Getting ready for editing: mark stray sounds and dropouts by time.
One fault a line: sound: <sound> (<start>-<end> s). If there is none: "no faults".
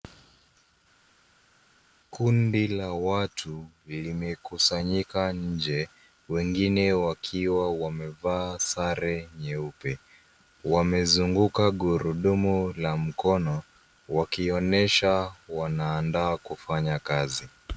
no faults